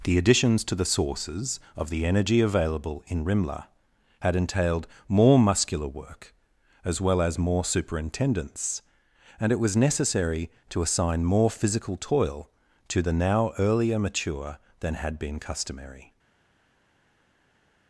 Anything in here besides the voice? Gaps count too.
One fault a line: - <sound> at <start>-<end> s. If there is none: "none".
none